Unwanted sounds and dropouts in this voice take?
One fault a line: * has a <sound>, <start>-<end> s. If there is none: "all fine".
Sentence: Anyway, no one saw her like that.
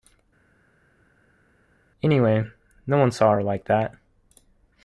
all fine